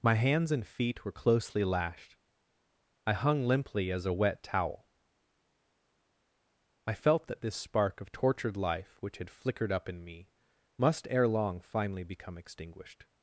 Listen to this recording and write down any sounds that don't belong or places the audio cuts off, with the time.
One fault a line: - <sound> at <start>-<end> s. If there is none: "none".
none